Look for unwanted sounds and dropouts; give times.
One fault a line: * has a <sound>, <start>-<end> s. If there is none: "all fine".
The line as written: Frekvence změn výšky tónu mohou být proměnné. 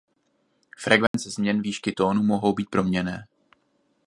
* has a dropout, 1.1-1.1 s